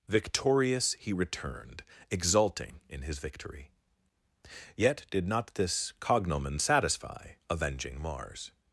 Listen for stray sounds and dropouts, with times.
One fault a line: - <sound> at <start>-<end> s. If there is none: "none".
none